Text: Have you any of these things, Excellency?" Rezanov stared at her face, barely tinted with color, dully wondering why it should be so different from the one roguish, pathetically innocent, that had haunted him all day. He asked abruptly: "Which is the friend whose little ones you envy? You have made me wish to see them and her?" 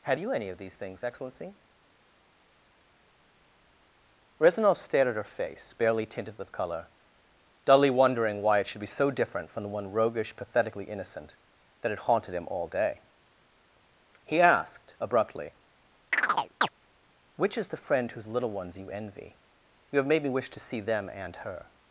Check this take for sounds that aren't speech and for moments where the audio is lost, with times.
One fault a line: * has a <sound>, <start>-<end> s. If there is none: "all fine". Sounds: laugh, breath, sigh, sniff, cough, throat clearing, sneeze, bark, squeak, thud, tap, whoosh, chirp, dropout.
* has a chirp, 16.1-16.7 s